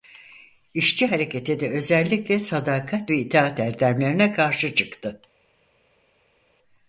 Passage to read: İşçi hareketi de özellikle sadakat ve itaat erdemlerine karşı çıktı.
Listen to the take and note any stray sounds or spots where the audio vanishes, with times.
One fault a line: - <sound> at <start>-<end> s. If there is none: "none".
none